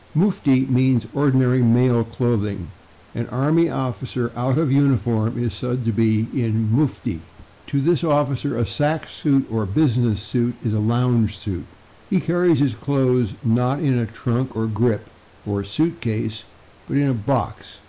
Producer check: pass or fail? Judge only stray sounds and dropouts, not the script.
pass